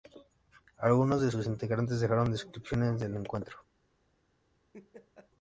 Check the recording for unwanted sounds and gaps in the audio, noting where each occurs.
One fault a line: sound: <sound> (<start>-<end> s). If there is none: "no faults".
sound: laugh (4.7-5.3 s)